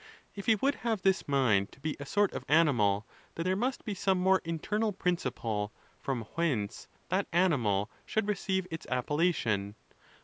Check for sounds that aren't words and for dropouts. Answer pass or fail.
pass